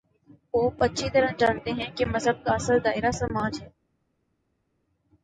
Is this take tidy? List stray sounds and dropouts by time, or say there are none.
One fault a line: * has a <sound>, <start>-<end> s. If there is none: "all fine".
all fine